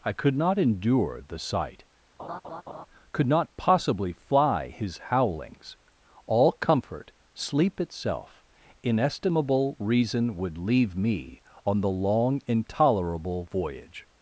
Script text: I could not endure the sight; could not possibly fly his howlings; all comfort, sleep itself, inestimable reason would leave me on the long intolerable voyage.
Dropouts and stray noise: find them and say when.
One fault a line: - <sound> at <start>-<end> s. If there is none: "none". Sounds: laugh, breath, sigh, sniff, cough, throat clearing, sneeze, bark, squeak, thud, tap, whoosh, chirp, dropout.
- laugh at 2.2-2.9 s